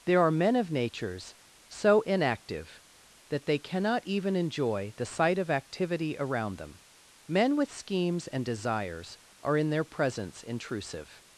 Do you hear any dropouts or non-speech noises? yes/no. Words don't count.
no